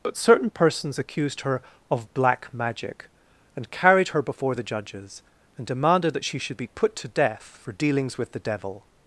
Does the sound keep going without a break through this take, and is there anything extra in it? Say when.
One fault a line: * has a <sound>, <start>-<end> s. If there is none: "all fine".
all fine